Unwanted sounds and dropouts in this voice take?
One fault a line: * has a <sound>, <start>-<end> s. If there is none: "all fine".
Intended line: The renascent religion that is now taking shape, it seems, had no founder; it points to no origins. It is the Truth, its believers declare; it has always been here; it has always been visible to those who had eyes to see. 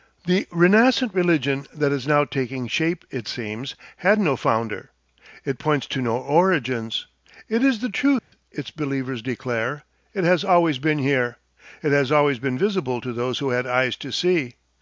* has a dropout, 8.2-8.3 s